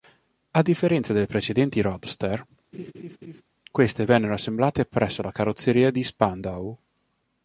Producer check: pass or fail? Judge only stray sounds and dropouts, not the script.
fail